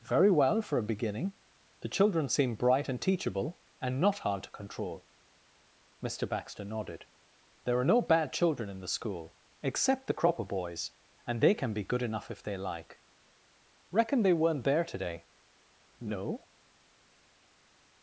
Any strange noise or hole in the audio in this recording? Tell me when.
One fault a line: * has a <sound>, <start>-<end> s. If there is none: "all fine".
all fine